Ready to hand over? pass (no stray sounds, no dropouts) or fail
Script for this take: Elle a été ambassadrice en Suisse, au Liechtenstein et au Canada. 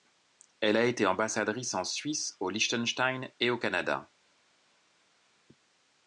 pass